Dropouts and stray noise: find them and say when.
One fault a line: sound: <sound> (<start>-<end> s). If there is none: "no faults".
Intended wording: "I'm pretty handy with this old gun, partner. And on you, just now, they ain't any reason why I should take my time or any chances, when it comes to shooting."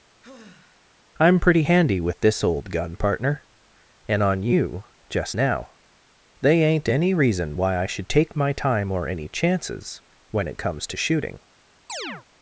sound: sigh (0.2-1.1 s)
sound: chirp (11.9-12.2 s)